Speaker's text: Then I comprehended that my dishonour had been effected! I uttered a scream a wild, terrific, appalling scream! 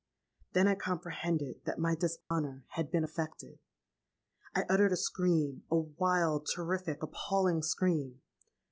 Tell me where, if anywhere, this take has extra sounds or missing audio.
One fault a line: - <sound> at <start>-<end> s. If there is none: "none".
- dropout at 2.2-2.3 s